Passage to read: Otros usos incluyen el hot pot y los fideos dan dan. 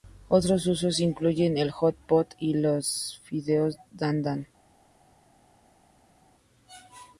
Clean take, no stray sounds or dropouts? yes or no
yes